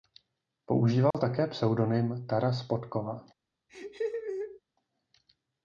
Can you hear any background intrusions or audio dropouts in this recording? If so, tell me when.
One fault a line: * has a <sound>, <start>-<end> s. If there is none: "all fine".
* has a dropout, 1.1-1.1 s
* has a laugh, 3.7-4.6 s